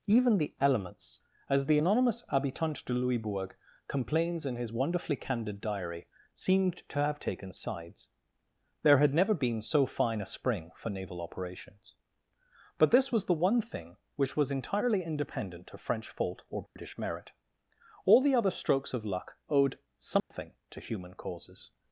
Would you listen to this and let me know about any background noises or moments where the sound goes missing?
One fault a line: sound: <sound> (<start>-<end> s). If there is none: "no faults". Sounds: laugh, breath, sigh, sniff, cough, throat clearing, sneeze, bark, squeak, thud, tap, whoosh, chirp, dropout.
sound: dropout (16.7-16.8 s)
sound: dropout (20.2-20.3 s)